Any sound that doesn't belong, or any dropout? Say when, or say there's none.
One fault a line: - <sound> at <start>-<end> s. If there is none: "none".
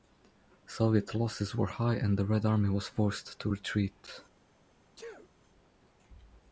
- sneeze at 5.0-5.3 s